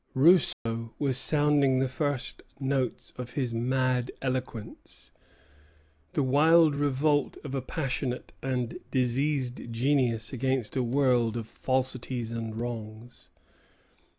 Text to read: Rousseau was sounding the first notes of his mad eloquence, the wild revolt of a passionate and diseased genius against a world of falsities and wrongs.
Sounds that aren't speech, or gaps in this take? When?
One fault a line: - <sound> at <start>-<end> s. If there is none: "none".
- dropout at 0.5-0.7 s